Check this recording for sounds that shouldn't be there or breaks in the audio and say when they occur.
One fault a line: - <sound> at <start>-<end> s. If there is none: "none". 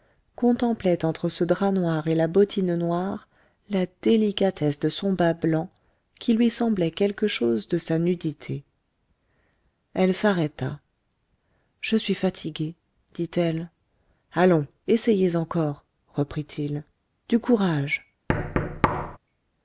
- thud at 18.3-19.2 s